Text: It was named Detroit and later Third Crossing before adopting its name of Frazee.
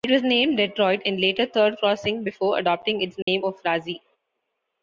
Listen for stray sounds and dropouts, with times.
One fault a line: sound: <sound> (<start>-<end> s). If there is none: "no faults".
sound: dropout (3.2-3.3 s)